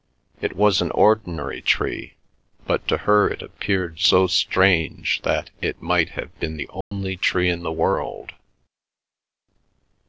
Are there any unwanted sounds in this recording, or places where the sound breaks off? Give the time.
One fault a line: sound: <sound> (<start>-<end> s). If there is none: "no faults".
sound: dropout (6.8-6.9 s)